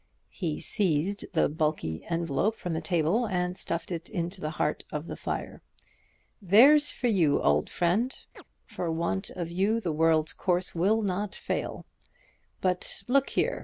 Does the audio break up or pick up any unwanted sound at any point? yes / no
yes